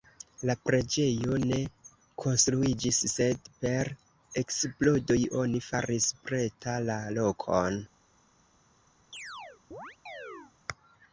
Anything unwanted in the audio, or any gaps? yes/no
yes